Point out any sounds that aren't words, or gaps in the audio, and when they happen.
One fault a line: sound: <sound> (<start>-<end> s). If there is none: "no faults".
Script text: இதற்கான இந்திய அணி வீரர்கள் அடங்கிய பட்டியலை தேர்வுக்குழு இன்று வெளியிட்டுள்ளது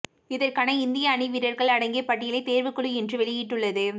no faults